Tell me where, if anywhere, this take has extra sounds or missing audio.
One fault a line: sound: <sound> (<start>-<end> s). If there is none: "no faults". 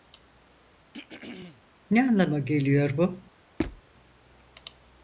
sound: throat clearing (0.9-1.6 s)
sound: squeak (3.6-3.8 s)